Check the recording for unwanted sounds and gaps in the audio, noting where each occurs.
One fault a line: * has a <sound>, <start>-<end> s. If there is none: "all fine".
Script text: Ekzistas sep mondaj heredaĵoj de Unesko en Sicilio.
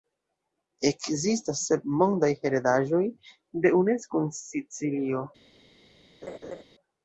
* has a laugh, 6.2-6.6 s